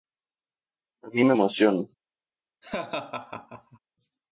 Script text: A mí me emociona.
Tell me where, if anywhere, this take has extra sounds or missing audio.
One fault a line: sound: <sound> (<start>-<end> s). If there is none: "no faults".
sound: laugh (2.6-3.8 s)